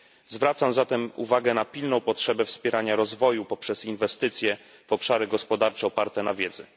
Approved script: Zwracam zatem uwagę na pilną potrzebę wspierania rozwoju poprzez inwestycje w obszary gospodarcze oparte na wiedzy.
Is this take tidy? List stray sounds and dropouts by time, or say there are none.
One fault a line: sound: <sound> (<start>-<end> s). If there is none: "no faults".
no faults